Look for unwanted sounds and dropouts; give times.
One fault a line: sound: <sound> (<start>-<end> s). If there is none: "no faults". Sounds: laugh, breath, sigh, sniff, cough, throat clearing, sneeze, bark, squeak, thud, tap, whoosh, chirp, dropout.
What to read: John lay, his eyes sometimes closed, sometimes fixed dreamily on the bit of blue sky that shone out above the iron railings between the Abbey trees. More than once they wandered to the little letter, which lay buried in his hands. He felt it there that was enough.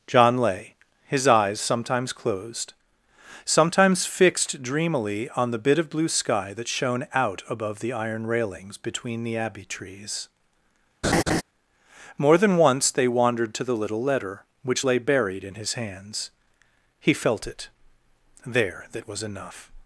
sound: laugh (11.0-11.4 s)